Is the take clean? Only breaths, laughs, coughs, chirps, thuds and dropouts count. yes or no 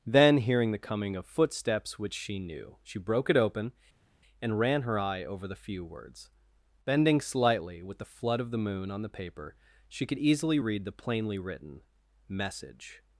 yes